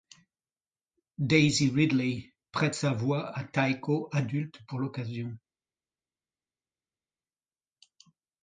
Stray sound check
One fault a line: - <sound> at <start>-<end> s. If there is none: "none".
none